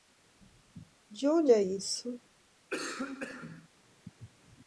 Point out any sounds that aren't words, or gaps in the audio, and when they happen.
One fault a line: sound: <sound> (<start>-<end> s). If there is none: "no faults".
sound: cough (2.7-3.7 s)